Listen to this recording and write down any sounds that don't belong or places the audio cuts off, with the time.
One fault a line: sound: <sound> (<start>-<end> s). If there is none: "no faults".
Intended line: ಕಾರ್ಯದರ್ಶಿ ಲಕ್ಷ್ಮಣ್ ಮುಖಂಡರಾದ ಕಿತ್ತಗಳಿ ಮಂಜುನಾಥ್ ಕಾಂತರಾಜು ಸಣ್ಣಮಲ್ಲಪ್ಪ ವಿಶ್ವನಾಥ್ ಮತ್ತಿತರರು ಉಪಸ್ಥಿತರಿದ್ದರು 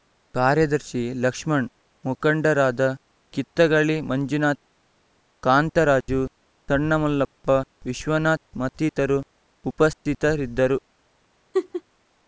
sound: laugh (11.5-11.8 s)